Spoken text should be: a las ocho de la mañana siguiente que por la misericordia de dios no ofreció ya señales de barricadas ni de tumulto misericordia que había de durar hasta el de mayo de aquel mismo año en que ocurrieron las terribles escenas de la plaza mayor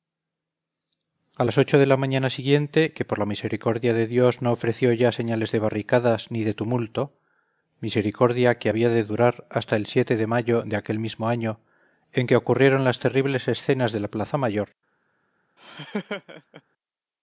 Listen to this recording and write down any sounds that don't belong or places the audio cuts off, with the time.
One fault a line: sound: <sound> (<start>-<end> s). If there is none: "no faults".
sound: laugh (15.6-16.6 s)